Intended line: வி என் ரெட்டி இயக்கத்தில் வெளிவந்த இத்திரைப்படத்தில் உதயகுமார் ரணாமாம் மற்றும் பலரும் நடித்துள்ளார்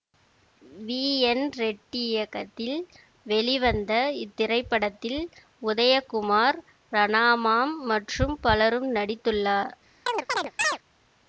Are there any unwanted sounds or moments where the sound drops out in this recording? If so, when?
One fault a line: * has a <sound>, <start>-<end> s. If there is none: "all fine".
* has a chirp, 10.1-10.8 s